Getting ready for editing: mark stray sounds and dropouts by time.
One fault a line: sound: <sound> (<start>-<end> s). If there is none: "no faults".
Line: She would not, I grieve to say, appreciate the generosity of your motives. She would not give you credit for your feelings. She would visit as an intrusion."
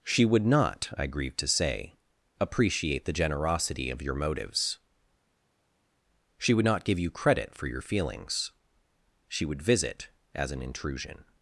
no faults